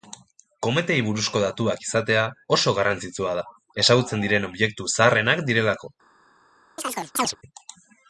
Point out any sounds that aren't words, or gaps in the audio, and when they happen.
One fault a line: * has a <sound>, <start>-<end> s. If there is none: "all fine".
* has a chirp, 6.8-7.4 s